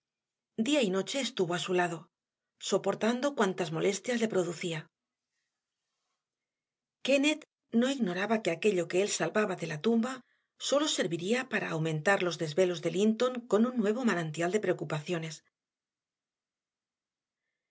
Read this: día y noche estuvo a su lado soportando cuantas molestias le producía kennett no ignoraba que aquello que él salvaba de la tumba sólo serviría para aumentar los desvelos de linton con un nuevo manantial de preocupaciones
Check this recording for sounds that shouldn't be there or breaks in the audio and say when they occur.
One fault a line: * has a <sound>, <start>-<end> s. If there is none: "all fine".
all fine